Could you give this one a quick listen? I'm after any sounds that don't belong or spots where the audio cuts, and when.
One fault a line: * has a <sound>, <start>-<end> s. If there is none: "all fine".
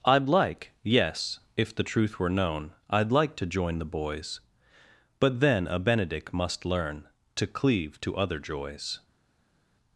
all fine